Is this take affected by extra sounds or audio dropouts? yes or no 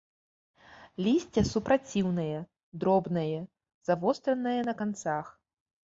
no